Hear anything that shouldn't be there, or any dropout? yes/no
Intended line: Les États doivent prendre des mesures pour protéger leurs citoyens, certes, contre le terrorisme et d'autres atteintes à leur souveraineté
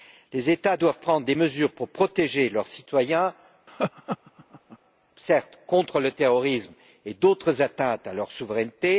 yes